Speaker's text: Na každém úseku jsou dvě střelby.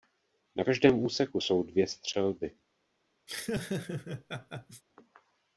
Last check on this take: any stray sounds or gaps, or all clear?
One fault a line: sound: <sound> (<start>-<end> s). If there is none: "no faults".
sound: laugh (3.3-4.8 s)